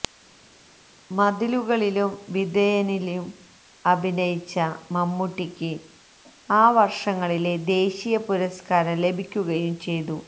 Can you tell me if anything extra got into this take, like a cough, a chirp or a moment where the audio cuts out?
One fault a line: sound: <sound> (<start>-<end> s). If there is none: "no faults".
no faults